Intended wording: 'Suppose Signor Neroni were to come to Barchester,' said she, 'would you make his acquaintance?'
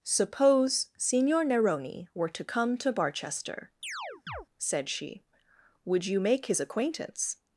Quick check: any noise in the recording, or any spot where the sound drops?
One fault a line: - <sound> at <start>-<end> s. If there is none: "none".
- chirp at 3.8-4.5 s